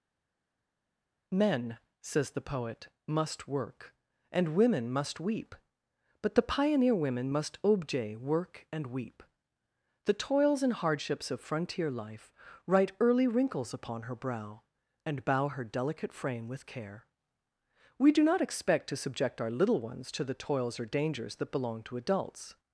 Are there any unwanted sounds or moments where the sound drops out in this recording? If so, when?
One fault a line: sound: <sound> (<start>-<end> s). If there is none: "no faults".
no faults